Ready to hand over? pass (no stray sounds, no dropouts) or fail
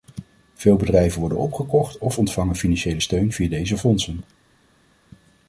pass